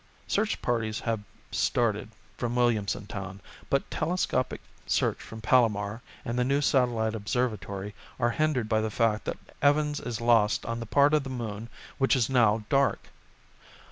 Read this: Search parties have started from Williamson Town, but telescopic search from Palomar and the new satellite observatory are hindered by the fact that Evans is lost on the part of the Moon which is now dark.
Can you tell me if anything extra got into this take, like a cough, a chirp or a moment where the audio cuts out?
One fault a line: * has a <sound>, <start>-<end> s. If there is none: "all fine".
all fine